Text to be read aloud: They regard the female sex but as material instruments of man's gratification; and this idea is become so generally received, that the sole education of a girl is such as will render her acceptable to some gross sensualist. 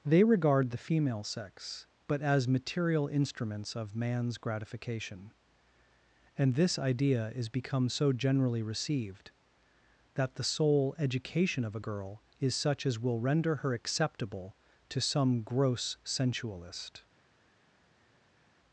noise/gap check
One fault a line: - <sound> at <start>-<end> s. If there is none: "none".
none